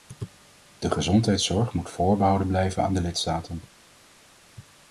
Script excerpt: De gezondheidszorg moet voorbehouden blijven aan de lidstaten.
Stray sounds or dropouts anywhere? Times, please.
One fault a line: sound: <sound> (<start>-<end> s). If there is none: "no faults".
no faults